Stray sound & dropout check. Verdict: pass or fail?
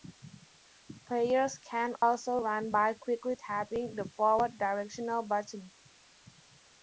fail